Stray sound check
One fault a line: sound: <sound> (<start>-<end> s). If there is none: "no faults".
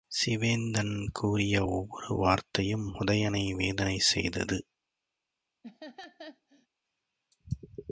sound: laugh (5.6-6.7 s)